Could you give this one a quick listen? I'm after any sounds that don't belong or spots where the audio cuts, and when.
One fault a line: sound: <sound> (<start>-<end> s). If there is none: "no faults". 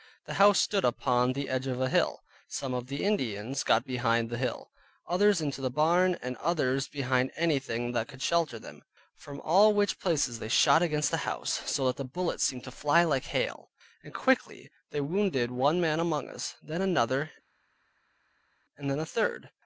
no faults